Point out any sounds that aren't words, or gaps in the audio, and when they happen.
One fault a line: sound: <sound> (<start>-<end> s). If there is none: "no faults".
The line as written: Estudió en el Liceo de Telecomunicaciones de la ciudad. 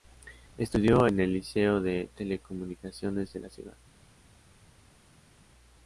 no faults